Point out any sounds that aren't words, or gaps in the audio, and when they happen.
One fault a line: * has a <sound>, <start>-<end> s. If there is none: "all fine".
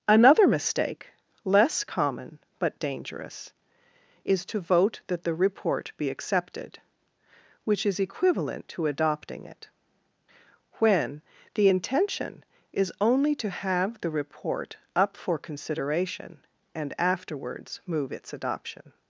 all fine